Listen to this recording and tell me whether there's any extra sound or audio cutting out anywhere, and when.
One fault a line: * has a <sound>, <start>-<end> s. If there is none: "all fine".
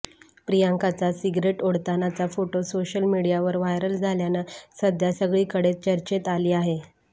all fine